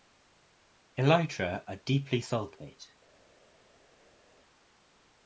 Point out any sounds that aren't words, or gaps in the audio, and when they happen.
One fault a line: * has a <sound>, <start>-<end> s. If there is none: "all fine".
all fine